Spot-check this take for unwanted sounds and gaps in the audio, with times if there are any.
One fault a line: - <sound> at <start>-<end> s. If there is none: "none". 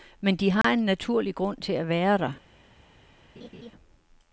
- dropout at 0.6-0.6 s
- laugh at 3.4-3.7 s